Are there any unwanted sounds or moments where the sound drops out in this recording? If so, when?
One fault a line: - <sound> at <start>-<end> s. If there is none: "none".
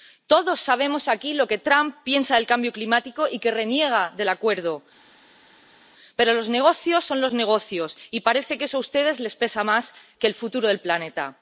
none